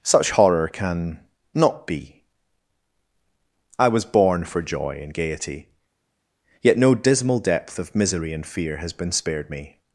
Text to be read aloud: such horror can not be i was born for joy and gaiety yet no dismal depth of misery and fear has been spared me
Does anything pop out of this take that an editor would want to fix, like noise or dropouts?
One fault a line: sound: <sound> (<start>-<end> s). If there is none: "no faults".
no faults